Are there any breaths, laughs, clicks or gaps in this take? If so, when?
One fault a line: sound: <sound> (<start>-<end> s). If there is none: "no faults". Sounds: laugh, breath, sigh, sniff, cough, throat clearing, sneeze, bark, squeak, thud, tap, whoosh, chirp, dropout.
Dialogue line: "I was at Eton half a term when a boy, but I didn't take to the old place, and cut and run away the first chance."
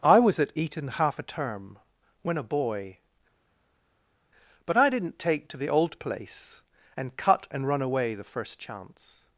no faults